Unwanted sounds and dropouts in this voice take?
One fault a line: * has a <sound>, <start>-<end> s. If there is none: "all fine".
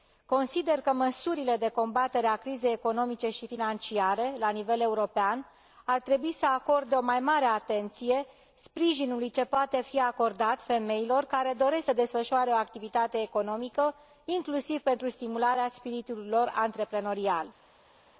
all fine